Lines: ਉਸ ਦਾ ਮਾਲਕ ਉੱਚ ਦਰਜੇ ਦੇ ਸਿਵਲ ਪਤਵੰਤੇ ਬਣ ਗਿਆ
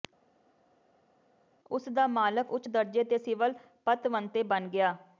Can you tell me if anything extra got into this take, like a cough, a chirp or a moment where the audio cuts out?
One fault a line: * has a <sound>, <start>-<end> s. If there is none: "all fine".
all fine